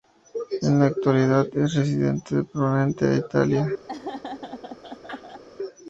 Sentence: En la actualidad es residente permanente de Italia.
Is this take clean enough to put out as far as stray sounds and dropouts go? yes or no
no